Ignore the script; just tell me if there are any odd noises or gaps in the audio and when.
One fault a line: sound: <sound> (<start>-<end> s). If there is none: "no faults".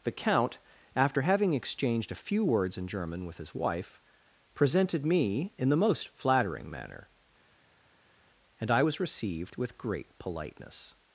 no faults